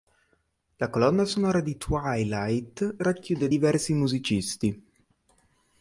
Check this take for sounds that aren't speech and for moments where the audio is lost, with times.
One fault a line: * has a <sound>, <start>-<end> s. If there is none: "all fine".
all fine